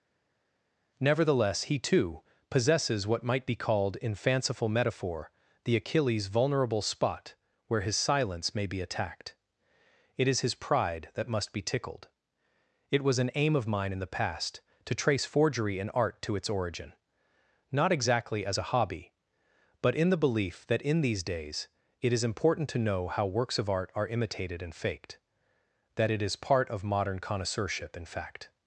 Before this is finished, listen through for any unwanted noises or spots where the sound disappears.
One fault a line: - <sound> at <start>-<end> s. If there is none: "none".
none